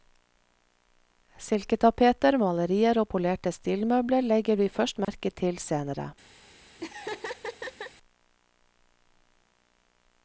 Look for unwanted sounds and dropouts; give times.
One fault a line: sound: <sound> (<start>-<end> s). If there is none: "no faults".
sound: dropout (5.0-5.1 s)
sound: laugh (6.8-7.9 s)